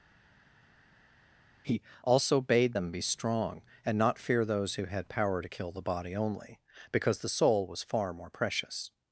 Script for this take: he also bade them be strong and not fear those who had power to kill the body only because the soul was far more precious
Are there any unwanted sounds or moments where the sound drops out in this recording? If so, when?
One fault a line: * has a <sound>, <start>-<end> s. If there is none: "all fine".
all fine